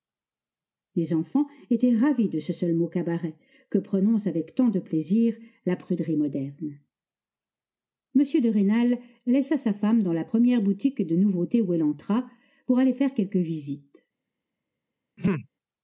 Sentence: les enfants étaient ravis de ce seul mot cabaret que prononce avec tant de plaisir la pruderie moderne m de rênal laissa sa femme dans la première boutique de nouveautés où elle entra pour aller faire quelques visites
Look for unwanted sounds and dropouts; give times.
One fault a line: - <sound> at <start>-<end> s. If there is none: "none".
- throat clearing at 15.2-15.5 s